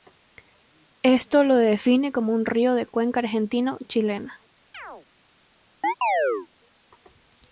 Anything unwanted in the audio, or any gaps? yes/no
yes